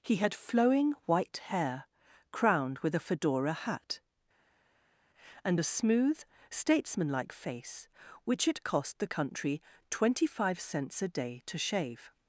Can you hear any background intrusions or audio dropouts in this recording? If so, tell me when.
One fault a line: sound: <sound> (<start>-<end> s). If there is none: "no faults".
no faults